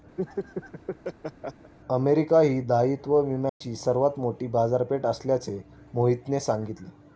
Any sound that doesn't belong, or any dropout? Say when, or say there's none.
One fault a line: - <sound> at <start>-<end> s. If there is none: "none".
- laugh at 0.2-1.7 s
- dropout at 3.5-3.6 s